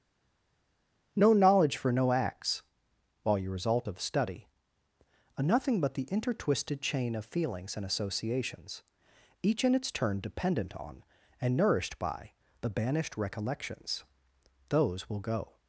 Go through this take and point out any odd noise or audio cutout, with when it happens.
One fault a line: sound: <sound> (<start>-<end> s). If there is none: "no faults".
no faults